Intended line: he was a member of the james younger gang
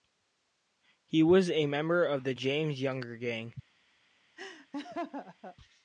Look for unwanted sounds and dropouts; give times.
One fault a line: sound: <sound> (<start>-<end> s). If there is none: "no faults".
sound: laugh (4.4-5.6 s)